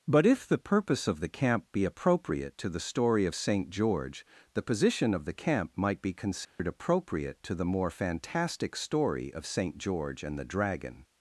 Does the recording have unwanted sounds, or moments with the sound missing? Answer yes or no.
yes